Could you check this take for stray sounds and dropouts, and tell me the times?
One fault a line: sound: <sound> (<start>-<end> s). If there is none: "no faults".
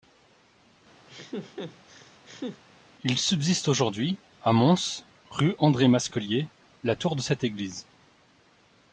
sound: laugh (1.1-2.6 s)